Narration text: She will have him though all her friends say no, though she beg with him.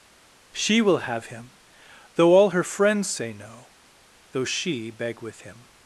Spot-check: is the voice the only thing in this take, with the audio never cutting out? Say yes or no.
yes